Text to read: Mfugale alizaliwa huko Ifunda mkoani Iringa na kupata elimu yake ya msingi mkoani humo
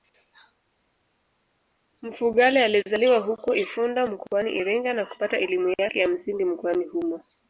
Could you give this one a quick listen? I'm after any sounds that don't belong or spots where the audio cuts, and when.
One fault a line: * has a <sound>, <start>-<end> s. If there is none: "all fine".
all fine